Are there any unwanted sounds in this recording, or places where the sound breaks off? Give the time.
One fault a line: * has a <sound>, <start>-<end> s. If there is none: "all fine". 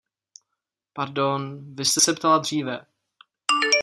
all fine